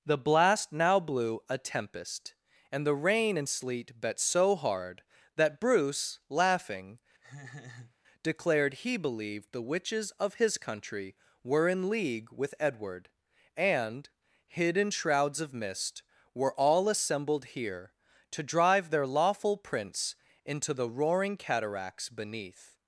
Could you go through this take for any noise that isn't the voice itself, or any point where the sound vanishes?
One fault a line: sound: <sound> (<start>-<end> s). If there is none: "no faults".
sound: laugh (7.2-8.0 s)